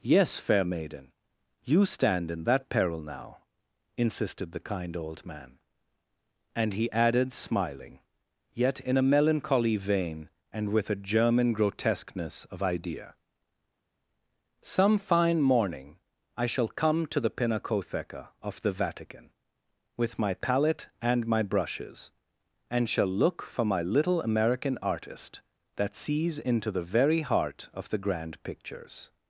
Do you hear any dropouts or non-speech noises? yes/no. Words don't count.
no